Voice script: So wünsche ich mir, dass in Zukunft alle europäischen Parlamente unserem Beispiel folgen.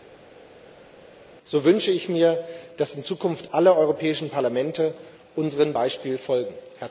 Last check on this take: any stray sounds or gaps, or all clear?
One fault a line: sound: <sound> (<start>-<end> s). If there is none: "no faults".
no faults